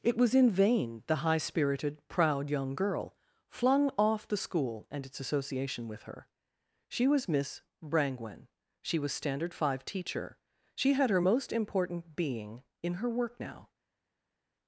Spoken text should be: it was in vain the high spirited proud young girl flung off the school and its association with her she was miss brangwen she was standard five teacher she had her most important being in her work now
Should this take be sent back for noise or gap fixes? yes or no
no